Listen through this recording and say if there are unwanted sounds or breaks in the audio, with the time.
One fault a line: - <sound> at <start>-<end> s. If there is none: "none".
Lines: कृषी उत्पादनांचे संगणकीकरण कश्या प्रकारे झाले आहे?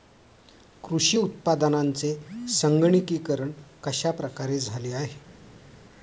none